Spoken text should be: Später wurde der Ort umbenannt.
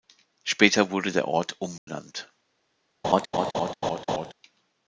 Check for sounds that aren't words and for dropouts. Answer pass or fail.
fail